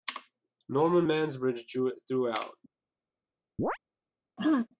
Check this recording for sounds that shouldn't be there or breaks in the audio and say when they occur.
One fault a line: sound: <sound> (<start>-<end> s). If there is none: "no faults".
sound: chirp (3.6-3.8 s)
sound: throat clearing (4.4-4.7 s)